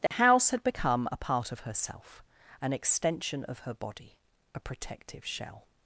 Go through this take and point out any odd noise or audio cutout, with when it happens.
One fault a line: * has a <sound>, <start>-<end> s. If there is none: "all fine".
* has a dropout, 0.1-0.1 s